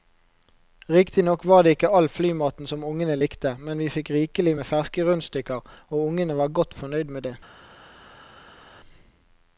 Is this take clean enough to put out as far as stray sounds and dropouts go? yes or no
yes